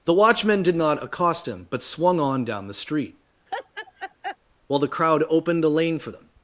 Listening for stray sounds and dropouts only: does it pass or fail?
fail